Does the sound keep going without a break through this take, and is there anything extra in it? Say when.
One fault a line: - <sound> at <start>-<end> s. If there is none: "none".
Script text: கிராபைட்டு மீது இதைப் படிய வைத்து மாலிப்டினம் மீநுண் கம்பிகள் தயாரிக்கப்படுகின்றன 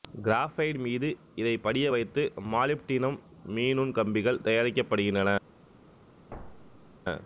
- thud at 6.3-7.0 s